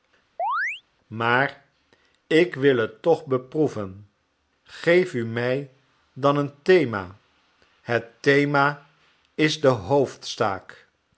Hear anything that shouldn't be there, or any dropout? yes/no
yes